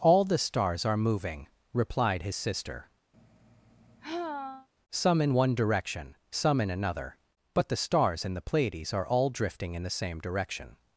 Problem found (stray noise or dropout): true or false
true